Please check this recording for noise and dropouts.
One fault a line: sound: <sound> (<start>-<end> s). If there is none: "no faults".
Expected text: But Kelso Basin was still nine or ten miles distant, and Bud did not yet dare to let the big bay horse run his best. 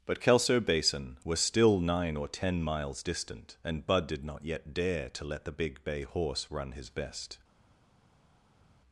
no faults